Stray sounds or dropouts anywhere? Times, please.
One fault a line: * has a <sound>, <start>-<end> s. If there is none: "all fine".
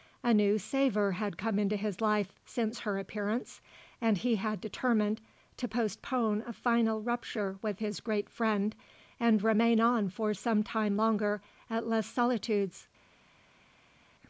all fine